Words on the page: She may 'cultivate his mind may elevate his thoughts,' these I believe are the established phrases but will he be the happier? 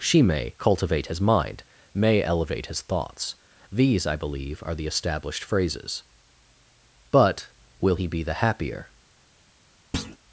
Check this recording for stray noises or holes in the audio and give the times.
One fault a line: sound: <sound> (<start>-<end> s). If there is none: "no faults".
sound: thud (9.9-10.2 s)